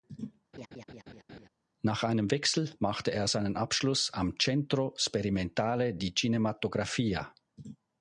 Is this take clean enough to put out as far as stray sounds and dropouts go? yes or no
no